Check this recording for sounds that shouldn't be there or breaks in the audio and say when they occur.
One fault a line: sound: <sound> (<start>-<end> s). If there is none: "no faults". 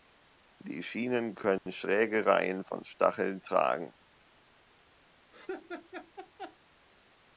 sound: dropout (1.6-1.7 s)
sound: laugh (5.3-6.6 s)